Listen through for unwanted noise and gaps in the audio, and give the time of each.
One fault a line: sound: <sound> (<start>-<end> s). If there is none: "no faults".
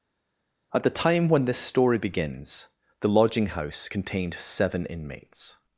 no faults